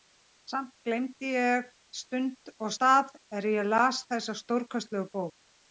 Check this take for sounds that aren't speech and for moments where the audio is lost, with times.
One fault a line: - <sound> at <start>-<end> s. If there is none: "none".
none